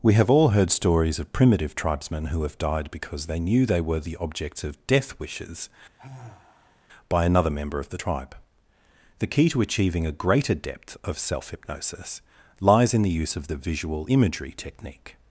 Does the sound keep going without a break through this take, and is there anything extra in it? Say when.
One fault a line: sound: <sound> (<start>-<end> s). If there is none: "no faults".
sound: sigh (6.0-6.9 s)